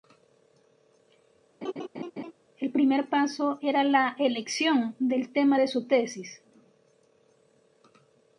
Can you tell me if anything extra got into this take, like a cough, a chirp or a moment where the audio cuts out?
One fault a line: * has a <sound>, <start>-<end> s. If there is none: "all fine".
* has a laugh, 1.6-2.3 s